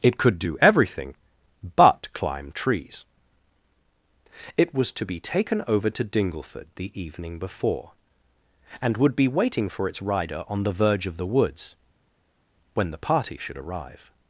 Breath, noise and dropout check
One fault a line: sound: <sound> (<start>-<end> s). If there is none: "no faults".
no faults